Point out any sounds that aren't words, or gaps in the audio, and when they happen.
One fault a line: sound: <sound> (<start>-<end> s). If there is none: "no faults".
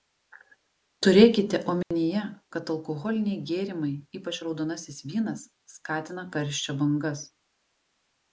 sound: dropout (1.8-1.9 s)